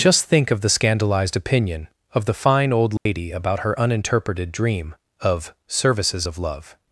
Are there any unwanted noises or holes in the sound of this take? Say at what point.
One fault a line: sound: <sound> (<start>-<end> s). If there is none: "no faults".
sound: dropout (3.0-3.1 s)